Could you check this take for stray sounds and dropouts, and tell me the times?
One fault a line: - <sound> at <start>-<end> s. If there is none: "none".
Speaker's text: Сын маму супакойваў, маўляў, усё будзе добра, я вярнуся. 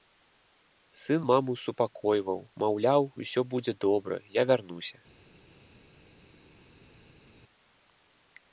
none